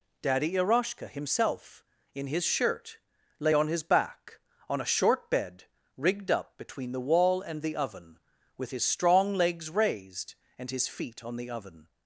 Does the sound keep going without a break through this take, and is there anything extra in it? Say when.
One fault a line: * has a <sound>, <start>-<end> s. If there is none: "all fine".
all fine